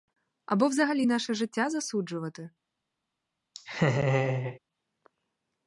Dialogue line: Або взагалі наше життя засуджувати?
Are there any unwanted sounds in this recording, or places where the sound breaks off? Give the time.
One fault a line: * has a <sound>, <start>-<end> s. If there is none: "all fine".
* has a laugh, 3.5-4.6 s